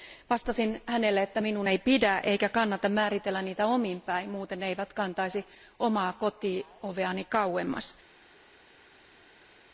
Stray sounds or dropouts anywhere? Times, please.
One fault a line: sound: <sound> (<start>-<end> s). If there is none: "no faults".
no faults